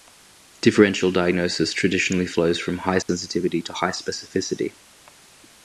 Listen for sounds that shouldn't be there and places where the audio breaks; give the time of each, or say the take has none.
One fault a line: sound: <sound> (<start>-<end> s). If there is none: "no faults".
sound: dropout (3.0-3.1 s)